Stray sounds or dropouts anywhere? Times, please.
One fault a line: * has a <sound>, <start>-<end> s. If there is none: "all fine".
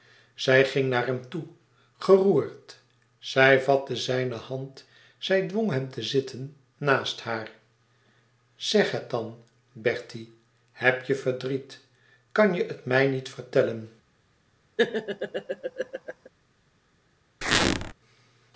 * has a laugh, 14.8-16.3 s
* has a squeak, 17.4-17.9 s